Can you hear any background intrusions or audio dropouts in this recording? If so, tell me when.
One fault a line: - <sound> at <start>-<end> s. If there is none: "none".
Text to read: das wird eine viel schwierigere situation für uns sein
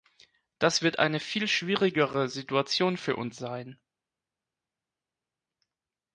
none